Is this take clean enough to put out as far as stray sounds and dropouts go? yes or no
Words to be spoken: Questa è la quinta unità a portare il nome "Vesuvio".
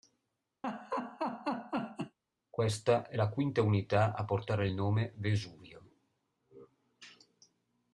no